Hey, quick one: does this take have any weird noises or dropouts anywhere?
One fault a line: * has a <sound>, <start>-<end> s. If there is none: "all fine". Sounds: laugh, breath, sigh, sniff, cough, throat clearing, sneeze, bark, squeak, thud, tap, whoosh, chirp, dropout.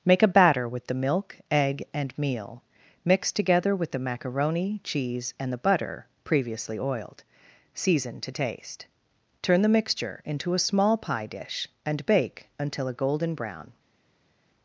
all fine